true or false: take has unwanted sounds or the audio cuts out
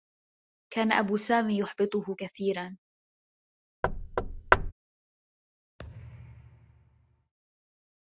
true